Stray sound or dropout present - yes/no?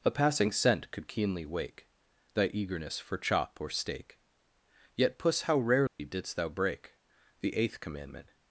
yes